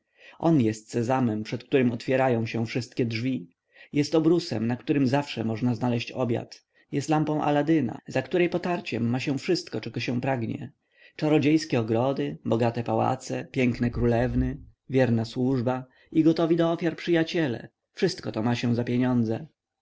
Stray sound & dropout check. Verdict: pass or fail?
pass